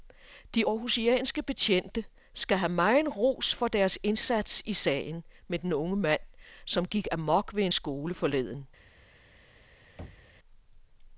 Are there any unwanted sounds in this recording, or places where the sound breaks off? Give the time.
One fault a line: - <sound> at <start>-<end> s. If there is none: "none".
- thud at 10.0-10.4 s